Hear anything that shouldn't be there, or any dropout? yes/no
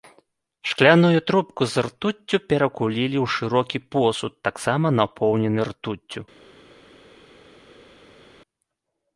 no